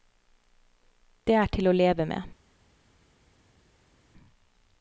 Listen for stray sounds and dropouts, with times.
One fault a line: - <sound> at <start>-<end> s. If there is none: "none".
none